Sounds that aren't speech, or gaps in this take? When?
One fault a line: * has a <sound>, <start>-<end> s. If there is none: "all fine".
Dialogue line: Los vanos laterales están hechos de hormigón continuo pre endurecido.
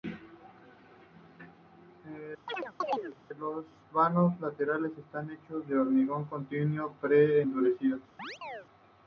* has a chirp, 2.5-3.2 s
* has a chirp, 8.2-8.7 s